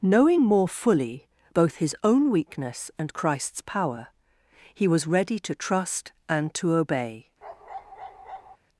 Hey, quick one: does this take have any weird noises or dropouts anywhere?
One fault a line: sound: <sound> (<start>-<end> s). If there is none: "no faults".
sound: bark (7.4-8.6 s)